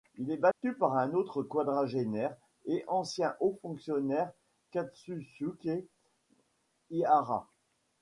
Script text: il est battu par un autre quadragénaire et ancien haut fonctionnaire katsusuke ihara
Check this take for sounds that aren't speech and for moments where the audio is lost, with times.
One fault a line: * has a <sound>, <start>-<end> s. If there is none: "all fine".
* has a dropout, 0.5-0.6 s